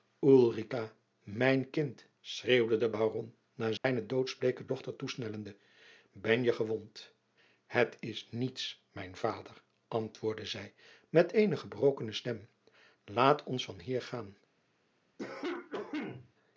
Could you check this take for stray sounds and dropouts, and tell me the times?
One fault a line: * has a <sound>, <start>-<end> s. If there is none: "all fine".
* has a dropout, 3.8-3.8 s
* has a cough, 15.2-16.3 s